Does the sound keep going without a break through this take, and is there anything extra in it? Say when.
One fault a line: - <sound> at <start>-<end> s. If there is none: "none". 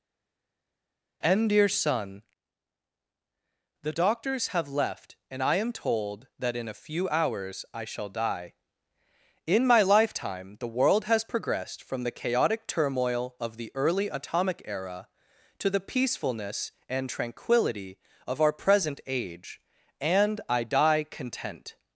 none